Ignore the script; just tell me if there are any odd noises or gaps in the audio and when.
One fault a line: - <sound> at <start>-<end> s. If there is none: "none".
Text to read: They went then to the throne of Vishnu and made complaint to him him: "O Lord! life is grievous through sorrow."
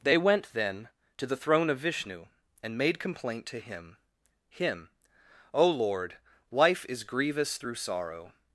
none